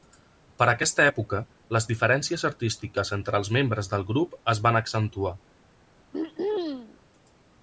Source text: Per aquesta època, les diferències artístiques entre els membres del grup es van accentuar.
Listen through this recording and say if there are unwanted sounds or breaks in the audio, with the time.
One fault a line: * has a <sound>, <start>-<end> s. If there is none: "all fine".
* has a throat clearing, 6.1-7.0 s